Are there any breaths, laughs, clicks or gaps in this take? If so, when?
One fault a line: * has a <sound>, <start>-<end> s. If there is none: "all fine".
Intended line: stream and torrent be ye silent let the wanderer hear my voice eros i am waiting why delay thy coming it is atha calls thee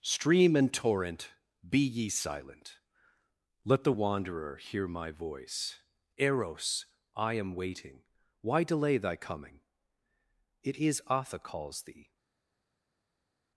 all fine